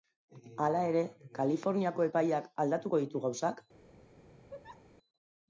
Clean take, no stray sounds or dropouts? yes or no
no